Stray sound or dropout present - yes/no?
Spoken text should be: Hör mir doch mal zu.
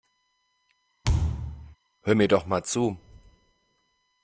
yes